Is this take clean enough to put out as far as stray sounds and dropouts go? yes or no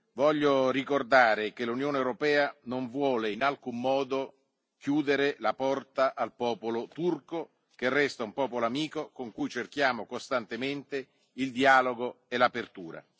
yes